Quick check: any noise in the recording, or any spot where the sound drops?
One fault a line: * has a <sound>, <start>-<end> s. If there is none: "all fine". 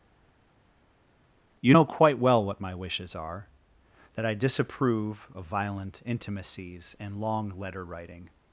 all fine